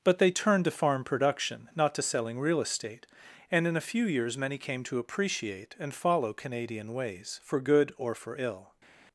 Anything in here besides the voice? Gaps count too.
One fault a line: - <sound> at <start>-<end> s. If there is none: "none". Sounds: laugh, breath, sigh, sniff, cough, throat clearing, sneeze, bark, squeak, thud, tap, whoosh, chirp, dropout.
none